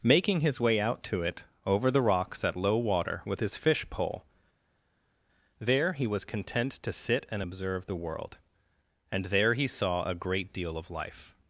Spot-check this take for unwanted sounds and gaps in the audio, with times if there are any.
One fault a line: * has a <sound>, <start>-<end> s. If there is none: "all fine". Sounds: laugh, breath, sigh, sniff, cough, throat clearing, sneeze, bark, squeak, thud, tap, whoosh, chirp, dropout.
all fine